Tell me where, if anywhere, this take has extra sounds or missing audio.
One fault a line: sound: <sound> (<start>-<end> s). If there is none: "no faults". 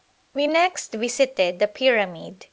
no faults